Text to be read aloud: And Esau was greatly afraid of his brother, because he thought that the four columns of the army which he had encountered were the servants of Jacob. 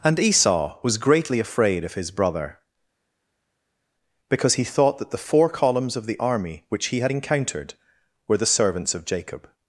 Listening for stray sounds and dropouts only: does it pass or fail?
pass